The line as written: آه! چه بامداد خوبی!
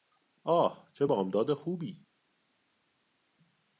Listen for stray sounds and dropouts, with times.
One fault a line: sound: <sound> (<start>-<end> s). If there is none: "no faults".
no faults